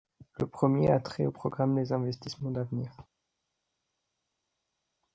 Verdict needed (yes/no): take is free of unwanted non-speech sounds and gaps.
yes